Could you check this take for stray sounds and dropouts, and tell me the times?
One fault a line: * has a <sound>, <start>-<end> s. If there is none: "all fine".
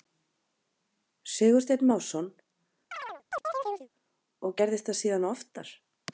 * has a chirp, 2.9-3.9 s